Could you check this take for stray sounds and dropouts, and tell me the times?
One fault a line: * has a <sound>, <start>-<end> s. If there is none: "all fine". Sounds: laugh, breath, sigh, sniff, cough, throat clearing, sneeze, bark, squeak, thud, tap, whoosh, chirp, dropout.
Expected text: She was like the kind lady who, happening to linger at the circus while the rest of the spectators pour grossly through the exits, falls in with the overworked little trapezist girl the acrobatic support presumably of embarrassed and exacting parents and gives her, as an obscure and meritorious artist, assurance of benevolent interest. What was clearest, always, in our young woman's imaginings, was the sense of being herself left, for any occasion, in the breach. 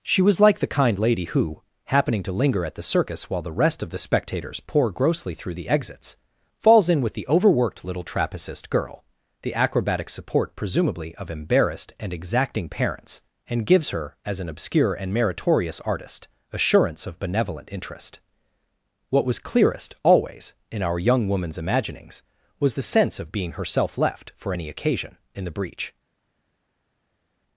all fine